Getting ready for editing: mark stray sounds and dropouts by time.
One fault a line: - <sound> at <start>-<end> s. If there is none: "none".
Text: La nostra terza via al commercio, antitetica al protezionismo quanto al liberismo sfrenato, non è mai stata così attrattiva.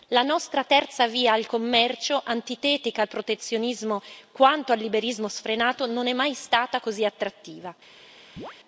- chirp at 8.4-8.6 s